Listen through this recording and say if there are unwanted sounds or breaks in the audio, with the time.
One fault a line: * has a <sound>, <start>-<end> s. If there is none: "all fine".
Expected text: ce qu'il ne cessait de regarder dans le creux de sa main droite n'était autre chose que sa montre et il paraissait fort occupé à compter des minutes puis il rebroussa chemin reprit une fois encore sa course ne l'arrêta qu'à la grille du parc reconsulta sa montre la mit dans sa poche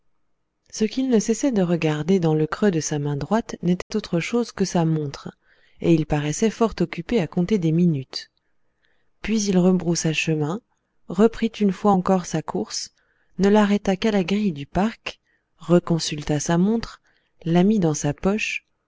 * has a dropout, 3.8-3.9 s